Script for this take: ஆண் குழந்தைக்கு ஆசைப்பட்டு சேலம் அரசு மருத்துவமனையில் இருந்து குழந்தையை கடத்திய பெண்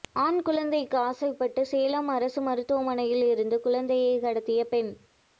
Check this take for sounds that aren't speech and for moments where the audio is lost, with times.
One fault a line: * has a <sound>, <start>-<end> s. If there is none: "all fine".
all fine